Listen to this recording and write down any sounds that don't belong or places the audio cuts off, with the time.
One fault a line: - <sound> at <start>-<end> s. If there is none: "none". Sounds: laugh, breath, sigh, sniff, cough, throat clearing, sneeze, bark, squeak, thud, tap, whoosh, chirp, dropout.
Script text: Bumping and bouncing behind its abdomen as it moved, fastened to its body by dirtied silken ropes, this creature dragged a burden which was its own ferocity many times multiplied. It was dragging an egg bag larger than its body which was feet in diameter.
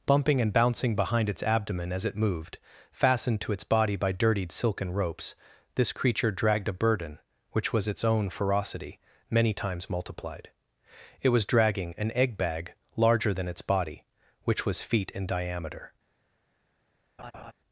- laugh at 17.2-17.5 s